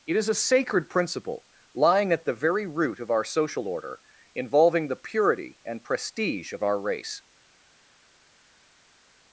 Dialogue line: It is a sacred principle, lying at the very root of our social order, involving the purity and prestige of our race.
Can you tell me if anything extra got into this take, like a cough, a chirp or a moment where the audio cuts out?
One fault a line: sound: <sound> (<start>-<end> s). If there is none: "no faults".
no faults